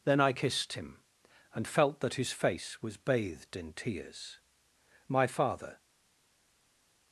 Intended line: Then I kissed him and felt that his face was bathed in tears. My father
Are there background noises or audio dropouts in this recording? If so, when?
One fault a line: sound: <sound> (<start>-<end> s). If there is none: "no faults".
no faults